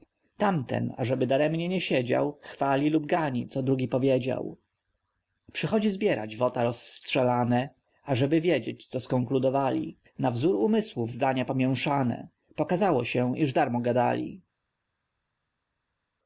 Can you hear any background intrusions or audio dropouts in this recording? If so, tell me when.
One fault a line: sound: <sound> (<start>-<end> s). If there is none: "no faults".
no faults